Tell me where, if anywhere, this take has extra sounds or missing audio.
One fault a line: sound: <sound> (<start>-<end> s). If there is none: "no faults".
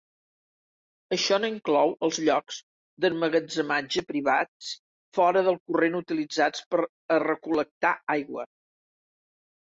no faults